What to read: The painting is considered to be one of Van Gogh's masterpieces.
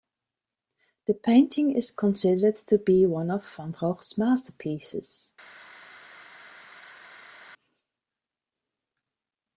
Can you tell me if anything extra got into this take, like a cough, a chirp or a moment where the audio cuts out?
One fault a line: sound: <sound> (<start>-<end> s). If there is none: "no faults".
no faults